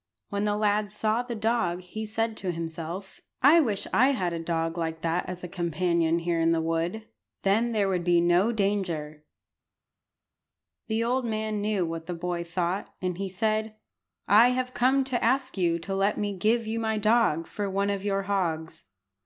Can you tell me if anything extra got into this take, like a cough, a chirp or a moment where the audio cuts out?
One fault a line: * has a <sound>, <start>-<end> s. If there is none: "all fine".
all fine